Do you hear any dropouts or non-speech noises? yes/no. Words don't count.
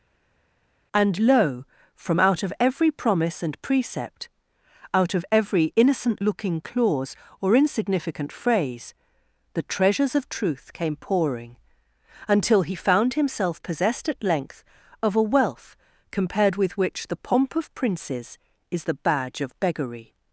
no